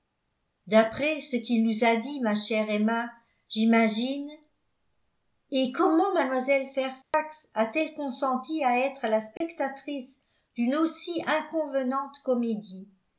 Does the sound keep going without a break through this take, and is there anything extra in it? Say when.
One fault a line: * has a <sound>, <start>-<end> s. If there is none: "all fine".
* has a dropout, 7.0-7.1 s
* has a dropout, 9.4-9.4 s